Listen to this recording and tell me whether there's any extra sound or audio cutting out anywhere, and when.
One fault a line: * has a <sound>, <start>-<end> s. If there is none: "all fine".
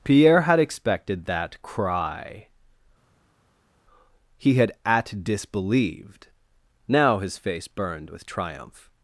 all fine